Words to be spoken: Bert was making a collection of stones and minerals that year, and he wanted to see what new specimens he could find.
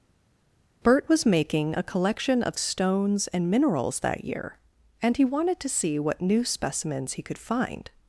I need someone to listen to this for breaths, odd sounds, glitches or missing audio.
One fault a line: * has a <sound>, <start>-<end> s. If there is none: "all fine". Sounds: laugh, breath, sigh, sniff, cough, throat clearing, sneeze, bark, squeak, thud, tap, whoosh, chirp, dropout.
all fine